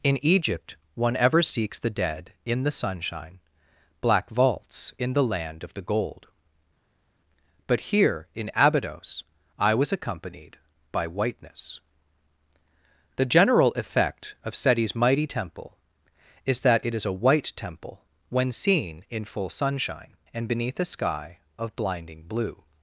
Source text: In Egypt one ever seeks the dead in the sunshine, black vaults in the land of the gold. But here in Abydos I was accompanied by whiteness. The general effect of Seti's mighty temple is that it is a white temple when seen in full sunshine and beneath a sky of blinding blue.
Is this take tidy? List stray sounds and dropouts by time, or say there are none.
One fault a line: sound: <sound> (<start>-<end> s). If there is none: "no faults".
no faults